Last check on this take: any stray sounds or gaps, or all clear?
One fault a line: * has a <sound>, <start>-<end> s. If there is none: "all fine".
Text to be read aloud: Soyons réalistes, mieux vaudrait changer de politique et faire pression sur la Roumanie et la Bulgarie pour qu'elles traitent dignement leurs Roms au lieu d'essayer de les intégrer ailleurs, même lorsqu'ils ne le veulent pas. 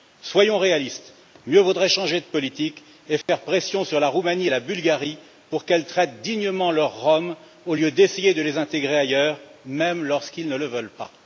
* has a dropout, 3.2-3.3 s